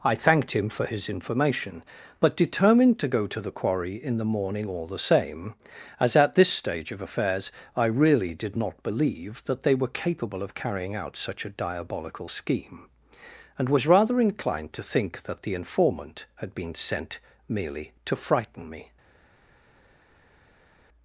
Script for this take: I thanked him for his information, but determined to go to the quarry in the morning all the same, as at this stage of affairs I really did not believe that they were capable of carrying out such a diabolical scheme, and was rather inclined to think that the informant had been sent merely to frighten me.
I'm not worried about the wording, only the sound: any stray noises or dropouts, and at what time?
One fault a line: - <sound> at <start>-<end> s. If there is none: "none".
none